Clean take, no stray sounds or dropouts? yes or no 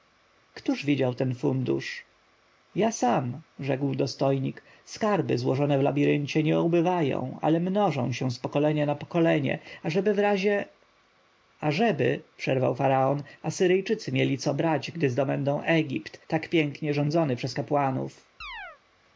no